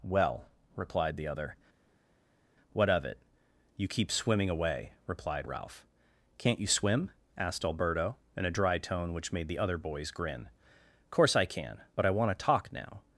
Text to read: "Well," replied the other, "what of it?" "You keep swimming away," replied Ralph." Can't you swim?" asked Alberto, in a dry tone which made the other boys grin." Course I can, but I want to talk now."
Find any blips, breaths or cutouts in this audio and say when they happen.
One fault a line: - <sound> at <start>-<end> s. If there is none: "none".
none